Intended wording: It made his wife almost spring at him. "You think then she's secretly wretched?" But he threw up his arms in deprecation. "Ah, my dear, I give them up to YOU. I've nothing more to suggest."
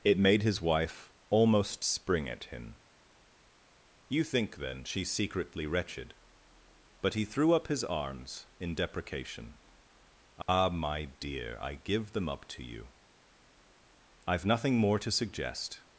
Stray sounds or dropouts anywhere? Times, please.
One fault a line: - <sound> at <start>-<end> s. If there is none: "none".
- dropout at 10.4-10.5 s